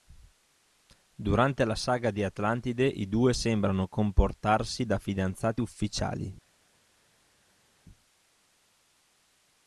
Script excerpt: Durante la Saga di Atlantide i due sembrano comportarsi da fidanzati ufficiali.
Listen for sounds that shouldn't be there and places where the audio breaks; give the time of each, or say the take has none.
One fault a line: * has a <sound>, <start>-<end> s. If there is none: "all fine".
all fine